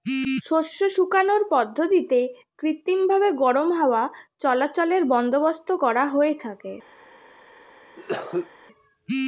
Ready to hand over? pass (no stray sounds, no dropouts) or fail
fail